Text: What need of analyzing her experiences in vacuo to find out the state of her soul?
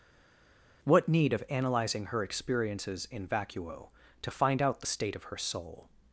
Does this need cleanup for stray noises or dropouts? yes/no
no